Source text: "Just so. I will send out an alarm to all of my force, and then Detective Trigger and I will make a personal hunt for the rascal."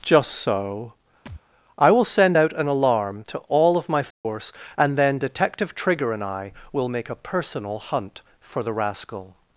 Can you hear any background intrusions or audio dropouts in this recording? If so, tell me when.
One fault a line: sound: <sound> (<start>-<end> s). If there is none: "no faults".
sound: thud (1.3-1.4 s)
sound: dropout (4.1-4.3 s)